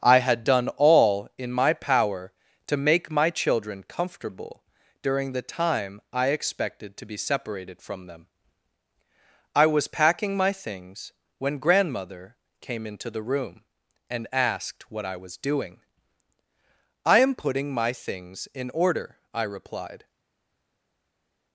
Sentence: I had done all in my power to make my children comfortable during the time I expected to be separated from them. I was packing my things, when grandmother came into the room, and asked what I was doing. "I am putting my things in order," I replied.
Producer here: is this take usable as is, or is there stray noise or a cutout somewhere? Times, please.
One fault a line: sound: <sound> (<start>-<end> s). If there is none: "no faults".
no faults